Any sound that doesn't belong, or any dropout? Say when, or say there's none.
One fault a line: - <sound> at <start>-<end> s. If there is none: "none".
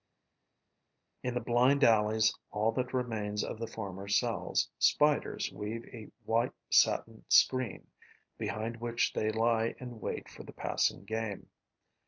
none